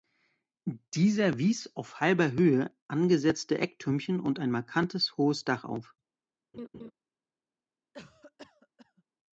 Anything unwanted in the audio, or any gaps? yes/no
yes